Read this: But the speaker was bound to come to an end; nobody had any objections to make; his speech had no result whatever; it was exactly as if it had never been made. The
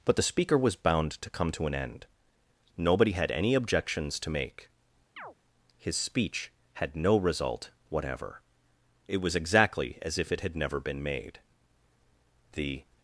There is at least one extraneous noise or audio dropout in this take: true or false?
true